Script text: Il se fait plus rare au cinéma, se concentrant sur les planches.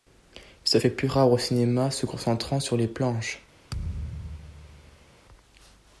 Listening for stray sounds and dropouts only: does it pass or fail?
fail